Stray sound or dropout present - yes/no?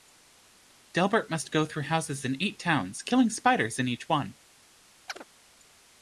yes